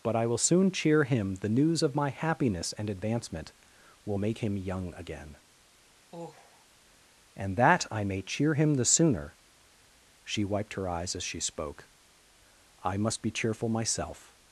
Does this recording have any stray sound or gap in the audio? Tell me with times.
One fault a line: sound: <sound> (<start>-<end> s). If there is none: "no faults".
sound: sigh (6.1-6.6 s)